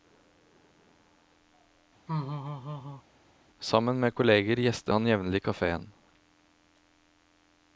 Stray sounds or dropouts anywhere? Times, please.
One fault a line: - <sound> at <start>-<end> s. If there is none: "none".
- laugh at 2.1-3.0 s